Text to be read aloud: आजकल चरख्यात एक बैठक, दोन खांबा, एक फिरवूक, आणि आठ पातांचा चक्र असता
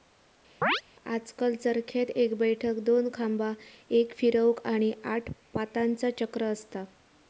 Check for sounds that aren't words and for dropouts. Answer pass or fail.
fail